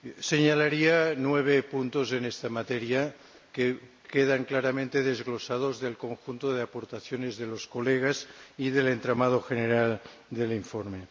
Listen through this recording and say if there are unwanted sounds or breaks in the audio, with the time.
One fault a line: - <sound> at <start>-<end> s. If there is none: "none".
none